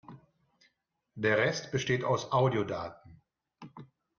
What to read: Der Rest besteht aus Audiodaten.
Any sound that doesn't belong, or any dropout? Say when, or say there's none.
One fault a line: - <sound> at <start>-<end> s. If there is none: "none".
none